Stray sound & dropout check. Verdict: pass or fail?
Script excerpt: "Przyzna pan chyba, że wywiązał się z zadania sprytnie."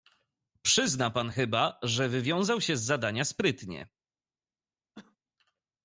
fail